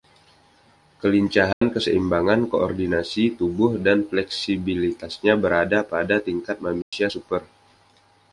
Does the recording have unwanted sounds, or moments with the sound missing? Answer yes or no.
yes